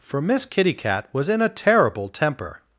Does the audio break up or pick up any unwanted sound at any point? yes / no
no